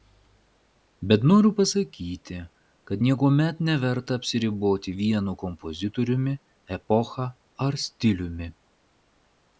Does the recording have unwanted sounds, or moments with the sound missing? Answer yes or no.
no